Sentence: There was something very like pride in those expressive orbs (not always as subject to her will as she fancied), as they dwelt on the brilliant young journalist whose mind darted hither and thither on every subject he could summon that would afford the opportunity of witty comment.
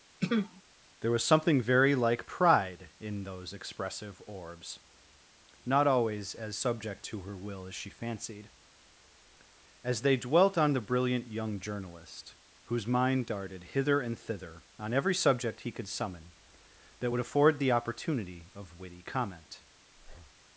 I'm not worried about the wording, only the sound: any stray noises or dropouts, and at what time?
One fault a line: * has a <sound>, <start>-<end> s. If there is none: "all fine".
* has a throat clearing, 0.2-0.6 s
* has a breath, 19.9-20.4 s